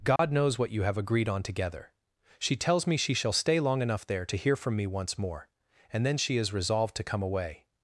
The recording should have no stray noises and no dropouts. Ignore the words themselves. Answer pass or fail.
fail